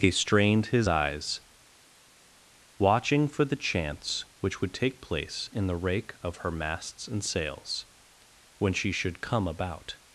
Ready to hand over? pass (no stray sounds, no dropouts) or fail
pass